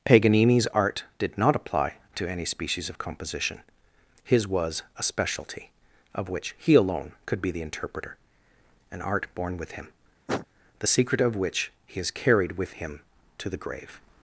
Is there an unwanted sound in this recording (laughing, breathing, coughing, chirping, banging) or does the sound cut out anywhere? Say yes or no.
yes